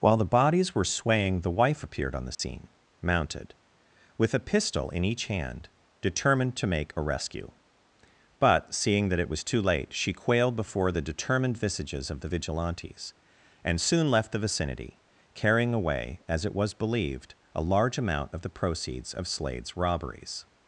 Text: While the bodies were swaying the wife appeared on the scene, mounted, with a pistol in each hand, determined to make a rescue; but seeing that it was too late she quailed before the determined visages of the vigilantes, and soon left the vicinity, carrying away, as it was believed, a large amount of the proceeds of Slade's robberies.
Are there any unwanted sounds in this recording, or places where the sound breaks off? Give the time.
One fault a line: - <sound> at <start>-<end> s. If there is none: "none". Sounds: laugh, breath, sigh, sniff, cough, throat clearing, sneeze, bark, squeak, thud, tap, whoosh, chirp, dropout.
- dropout at 2.3-2.4 s